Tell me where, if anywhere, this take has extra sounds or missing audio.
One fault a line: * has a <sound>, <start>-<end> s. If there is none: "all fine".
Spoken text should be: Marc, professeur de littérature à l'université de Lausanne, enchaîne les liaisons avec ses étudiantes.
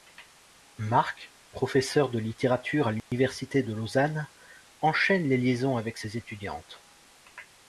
* has a dropout, 3.0-3.1 s